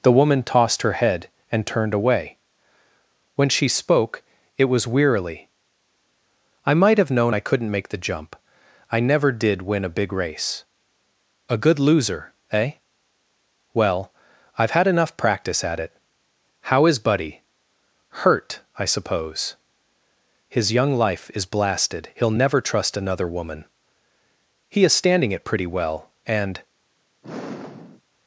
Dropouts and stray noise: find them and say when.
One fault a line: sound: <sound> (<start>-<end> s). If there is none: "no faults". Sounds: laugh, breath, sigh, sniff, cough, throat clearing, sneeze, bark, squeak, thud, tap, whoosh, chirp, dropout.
sound: sigh (27.2-28.0 s)